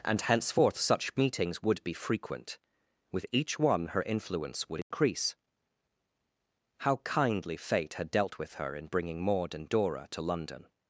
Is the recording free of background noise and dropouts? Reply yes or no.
no